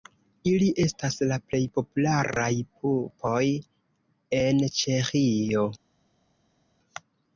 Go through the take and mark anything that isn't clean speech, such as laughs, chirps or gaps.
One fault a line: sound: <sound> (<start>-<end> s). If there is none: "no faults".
no faults